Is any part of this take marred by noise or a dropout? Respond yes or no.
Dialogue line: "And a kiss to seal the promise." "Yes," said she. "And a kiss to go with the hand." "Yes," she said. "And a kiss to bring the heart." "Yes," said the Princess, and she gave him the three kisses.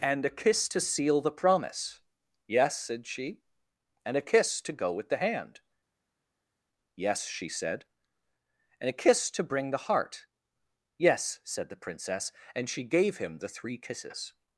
no